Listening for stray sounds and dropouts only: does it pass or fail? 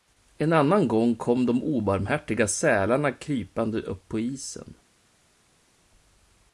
pass